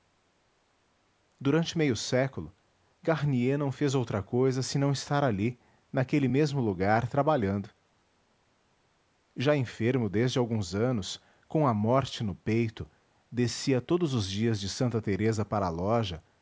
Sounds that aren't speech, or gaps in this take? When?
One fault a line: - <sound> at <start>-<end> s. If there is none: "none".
none